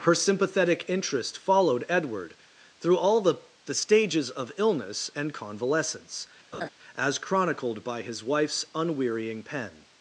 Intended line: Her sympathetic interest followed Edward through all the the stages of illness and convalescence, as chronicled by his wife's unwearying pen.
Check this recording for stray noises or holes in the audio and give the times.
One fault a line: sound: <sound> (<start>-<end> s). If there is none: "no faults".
sound: laugh (6.5-6.7 s)